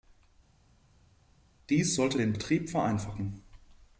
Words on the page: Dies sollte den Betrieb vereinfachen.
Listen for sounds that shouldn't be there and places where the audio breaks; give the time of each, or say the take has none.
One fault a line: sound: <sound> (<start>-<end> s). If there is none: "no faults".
no faults